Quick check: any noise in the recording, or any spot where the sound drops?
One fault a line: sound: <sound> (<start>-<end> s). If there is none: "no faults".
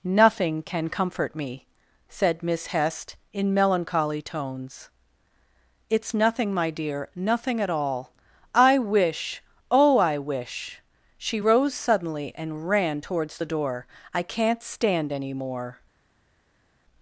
no faults